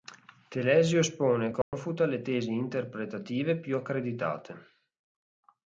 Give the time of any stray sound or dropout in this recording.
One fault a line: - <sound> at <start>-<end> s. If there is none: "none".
- dropout at 1.6-1.7 s